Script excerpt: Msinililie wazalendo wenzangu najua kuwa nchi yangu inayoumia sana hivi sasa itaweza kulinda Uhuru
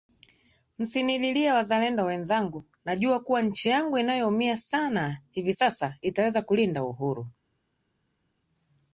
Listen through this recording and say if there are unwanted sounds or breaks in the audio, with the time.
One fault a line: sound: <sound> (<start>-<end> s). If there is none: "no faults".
no faults